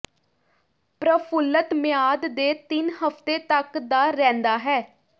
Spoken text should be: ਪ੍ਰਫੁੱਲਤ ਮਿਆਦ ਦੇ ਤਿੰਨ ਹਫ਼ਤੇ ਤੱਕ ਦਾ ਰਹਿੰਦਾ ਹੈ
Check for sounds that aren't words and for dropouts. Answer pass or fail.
pass